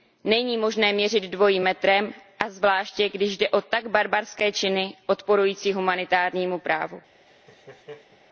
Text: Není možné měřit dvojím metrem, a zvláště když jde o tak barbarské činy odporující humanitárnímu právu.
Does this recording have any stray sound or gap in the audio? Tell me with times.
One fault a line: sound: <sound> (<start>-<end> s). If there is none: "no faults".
sound: laugh (7.3-8.2 s)